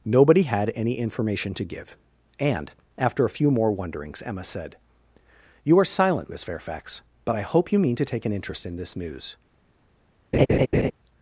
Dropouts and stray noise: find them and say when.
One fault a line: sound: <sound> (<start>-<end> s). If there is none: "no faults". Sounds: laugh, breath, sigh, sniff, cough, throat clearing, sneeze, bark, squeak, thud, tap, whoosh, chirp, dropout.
sound: laugh (10.3-10.9 s)